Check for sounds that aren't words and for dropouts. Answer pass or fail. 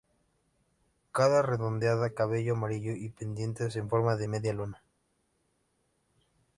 pass